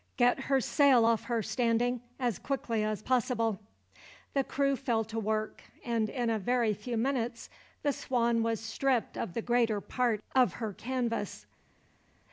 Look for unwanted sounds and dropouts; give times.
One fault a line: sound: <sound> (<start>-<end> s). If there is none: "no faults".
no faults